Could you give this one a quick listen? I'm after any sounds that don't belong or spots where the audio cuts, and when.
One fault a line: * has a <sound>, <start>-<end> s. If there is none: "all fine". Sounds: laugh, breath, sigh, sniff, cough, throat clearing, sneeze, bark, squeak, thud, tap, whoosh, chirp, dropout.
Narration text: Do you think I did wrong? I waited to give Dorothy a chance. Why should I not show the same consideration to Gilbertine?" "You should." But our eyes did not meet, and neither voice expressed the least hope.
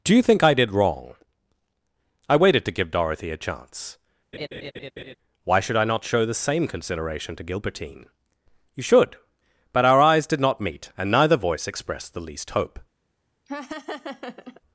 * has a laugh, 4.3-5.2 s
* has a laugh, 13.5-14.6 s